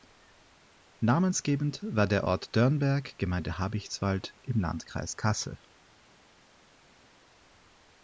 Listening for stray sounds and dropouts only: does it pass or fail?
pass